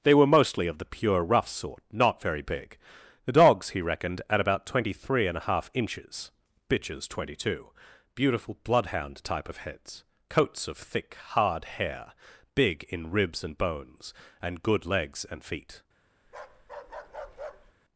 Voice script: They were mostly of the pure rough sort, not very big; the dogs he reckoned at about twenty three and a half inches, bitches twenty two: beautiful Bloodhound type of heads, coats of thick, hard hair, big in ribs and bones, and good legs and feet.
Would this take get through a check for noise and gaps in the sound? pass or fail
fail